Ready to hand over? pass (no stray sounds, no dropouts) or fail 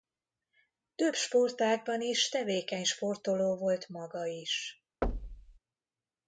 fail